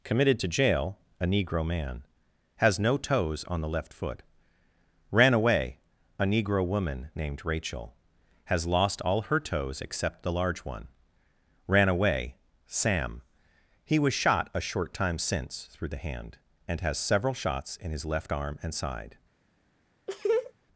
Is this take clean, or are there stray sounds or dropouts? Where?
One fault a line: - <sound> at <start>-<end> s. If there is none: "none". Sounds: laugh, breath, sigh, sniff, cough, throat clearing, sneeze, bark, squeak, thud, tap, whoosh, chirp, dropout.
- laugh at 20.1-20.5 s